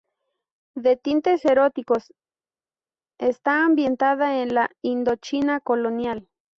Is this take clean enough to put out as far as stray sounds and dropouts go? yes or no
yes